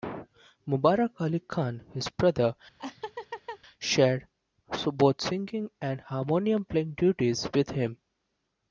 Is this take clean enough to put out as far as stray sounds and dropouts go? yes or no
no